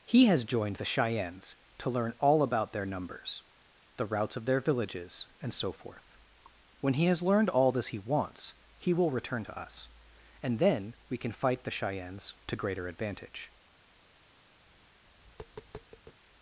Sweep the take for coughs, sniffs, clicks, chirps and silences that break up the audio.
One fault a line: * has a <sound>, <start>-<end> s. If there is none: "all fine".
* has a tap, 14.7-16.2 s